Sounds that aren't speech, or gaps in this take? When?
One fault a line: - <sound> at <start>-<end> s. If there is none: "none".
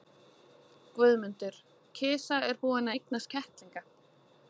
none